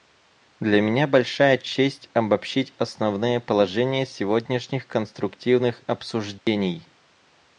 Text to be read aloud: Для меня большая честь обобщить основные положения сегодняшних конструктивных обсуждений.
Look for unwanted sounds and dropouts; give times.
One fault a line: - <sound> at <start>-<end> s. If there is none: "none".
- dropout at 6.4-6.5 s